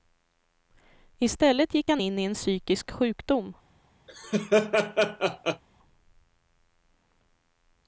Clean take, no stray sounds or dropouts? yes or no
no